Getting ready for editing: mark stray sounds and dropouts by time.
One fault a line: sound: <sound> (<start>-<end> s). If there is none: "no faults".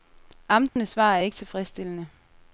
sound: dropout (0.7-0.8 s)